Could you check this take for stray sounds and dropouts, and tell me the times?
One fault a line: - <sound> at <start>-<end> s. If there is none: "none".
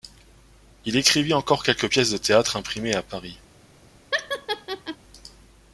- laugh at 4.1-5.0 s